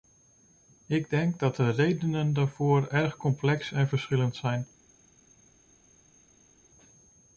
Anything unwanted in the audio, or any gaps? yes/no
no